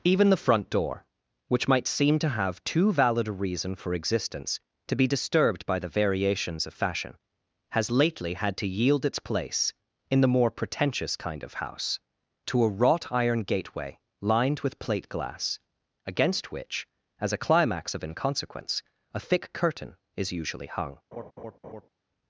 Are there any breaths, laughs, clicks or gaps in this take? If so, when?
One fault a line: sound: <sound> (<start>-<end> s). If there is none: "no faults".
sound: laugh (21.1-21.9 s)